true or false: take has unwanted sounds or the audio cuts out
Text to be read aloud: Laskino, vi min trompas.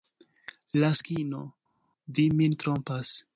false